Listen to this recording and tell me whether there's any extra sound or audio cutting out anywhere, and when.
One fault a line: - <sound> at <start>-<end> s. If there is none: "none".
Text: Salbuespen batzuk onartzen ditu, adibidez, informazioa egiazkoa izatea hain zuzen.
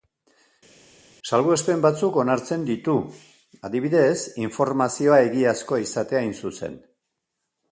none